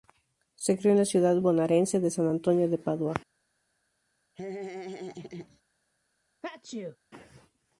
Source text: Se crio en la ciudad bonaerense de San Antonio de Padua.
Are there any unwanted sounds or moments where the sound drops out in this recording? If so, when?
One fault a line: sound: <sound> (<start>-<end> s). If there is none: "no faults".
sound: laugh (4.3-5.6 s)
sound: sneeze (6.4-7.0 s)